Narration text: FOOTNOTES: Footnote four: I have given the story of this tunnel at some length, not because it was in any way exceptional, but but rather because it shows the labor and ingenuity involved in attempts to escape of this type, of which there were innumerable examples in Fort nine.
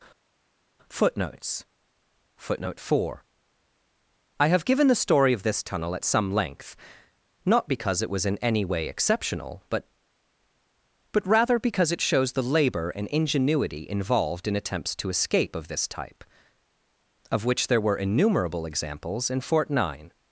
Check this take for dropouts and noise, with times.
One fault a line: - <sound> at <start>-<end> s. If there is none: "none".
none